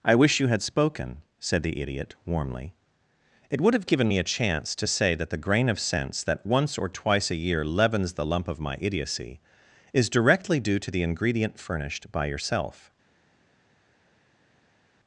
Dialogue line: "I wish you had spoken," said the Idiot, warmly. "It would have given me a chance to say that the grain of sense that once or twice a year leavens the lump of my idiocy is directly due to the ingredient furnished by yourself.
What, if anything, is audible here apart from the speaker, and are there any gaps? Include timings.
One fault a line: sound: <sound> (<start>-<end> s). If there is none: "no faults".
no faults